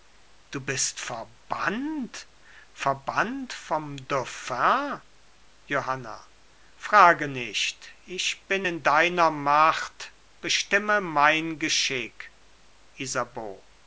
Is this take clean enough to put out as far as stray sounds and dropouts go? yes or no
yes